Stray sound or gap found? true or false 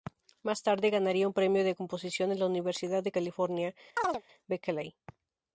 true